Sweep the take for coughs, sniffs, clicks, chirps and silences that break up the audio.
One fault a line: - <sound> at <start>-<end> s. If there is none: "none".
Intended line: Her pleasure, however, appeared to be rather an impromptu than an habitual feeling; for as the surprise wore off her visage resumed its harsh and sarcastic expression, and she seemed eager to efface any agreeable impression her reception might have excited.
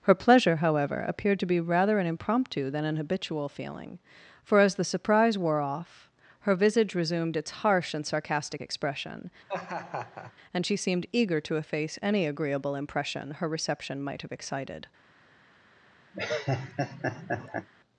- laugh at 9.5-10.3 s
- laugh at 16.1-17.7 s